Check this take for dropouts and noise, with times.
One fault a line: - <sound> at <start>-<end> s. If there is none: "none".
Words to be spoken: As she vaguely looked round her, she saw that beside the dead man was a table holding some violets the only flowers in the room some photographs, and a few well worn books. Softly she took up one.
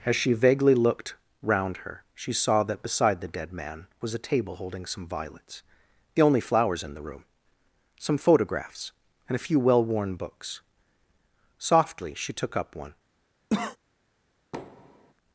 - cough at 13.5-13.8 s
- thud at 14.5-15.1 s